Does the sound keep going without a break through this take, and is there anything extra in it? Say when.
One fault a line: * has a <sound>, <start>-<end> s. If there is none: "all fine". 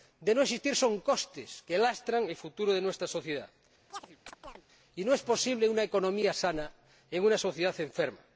* has a chirp, 3.9-4.6 s